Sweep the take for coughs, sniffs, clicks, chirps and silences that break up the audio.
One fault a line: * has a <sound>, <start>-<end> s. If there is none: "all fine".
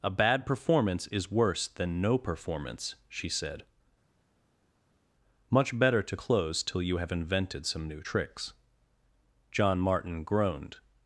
all fine